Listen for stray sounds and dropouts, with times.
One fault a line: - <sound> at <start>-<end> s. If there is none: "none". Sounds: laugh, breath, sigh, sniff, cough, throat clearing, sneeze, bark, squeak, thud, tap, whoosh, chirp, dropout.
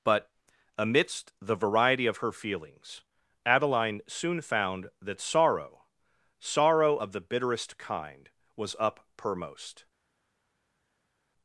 none